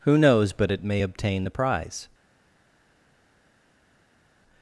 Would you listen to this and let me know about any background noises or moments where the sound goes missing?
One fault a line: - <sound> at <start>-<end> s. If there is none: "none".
none